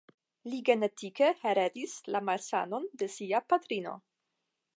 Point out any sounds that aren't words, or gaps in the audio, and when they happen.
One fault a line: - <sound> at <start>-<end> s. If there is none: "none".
none